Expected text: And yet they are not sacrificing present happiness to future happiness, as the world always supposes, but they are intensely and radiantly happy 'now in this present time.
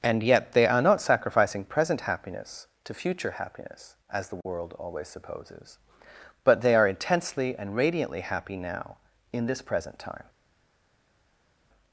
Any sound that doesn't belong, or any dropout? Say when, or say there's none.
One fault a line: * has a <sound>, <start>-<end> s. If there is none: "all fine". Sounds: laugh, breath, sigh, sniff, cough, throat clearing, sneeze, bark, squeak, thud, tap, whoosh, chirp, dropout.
all fine